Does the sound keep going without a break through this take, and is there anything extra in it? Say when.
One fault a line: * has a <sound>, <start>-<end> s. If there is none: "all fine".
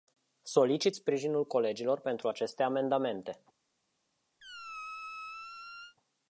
* has a squeak, 4.4-6.0 s